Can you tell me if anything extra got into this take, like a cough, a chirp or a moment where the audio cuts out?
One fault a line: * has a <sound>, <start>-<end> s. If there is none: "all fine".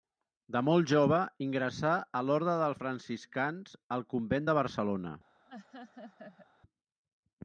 * has a laugh, 5.5-6.5 s